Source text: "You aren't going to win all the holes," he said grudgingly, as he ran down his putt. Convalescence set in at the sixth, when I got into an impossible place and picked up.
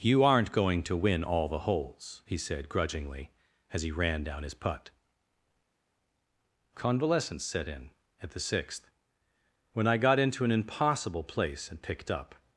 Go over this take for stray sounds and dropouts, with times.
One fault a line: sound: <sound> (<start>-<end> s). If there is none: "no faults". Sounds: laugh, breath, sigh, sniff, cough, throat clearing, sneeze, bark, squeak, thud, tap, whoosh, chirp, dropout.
no faults